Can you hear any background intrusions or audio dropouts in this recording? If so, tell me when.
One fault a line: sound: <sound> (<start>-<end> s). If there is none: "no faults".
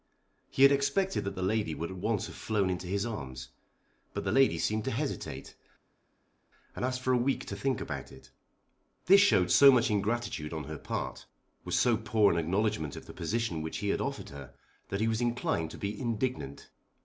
no faults